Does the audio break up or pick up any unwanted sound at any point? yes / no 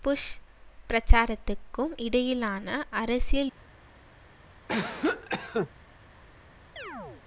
yes